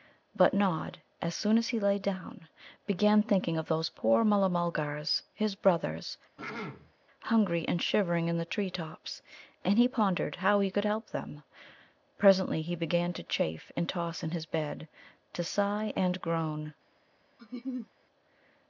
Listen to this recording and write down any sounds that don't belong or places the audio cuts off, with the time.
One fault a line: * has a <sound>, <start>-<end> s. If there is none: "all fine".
* has a throat clearing, 6.4-6.9 s
* has a laugh, 17.4-17.9 s